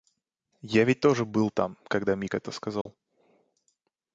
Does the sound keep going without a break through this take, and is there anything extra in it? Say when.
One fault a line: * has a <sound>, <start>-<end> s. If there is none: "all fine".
* has a dropout, 2.8-2.9 s